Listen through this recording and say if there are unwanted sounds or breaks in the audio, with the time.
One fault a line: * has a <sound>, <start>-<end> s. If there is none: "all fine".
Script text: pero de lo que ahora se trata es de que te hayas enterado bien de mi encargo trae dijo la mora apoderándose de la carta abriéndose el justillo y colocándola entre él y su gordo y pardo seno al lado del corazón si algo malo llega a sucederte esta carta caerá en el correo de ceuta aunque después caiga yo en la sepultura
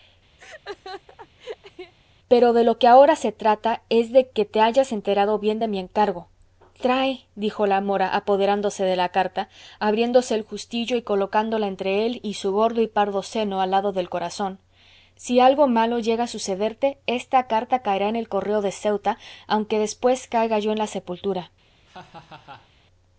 * has a laugh, 0.4-1.9 s
* has a laugh, 21.9-22.7 s